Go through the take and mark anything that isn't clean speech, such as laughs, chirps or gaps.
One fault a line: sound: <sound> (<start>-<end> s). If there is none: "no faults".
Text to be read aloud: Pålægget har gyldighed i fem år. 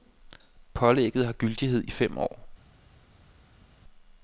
no faults